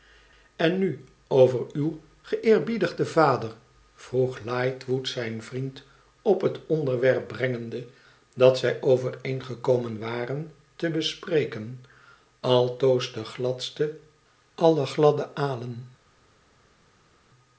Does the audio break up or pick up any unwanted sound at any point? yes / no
no